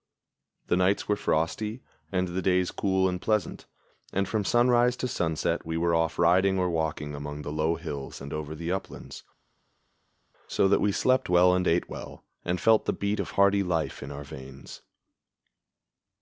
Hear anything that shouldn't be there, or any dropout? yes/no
no